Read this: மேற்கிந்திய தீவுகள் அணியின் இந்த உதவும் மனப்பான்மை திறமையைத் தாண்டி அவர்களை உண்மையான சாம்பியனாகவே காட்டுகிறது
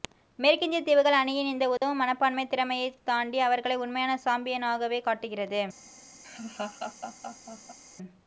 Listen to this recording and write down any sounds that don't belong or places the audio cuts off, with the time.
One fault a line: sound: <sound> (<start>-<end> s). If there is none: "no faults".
sound: dropout (1.8-1.8 s)
sound: laugh (6.2-7.8 s)